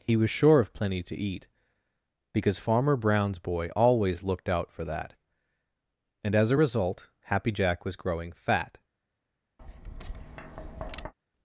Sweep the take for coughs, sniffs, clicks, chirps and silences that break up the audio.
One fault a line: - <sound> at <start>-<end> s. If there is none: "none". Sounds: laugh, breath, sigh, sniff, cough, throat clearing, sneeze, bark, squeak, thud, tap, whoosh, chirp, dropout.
- tap at 9.6-11.1 s